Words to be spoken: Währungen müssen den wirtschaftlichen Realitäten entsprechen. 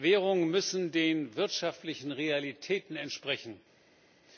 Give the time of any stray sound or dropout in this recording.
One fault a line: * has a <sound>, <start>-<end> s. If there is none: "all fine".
all fine